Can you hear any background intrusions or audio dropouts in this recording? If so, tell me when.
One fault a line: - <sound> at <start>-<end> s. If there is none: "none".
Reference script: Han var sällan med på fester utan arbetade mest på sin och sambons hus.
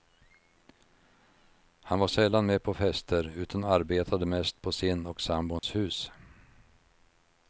- dropout at 5.6-5.6 s